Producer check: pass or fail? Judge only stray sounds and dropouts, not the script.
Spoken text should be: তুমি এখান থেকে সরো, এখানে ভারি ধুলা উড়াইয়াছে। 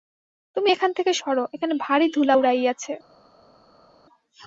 pass